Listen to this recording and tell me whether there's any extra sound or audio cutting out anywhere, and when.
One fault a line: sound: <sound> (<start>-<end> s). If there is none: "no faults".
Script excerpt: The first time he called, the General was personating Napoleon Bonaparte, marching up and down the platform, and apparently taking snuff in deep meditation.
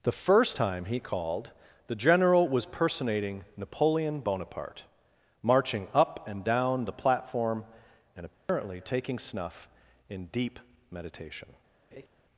sound: dropout (8.3-8.5 s)
sound: laugh (11.9-12.1 s)